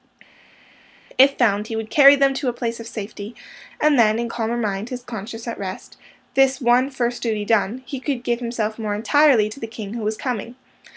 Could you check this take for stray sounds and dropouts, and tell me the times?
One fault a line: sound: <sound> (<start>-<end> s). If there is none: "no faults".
no faults